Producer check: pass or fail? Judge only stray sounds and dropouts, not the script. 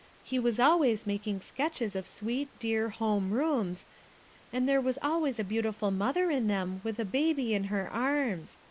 pass